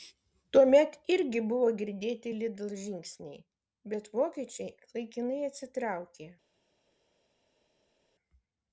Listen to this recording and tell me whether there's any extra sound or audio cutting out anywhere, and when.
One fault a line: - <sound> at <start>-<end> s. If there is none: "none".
none